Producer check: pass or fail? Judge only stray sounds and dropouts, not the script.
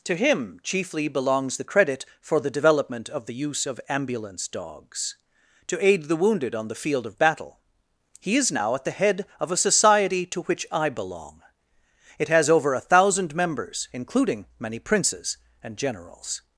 pass